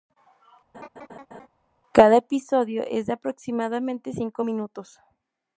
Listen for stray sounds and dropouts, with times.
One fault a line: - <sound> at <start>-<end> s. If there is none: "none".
- laugh at 0.7-1.5 s